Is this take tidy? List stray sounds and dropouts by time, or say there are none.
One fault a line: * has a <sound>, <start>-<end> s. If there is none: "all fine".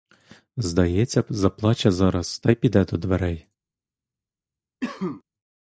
* has a cough, 4.8-5.2 s